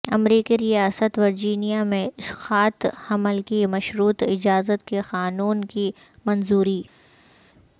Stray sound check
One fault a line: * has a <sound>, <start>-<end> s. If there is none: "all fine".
all fine